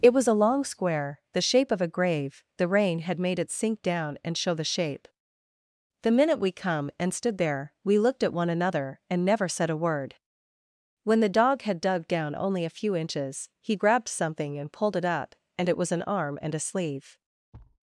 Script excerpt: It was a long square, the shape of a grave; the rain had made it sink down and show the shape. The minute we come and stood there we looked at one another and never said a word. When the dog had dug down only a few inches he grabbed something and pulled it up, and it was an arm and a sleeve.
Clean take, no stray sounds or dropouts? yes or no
no